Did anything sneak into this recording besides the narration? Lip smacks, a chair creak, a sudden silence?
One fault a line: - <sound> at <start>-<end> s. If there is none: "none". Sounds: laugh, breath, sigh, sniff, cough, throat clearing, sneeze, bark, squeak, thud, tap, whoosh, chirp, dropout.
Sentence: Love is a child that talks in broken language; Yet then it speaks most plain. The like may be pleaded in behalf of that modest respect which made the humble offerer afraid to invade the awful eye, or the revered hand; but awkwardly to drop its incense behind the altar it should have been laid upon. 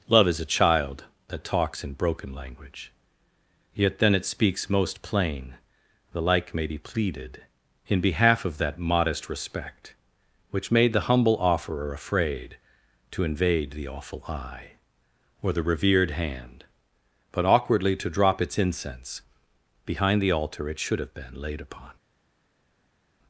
none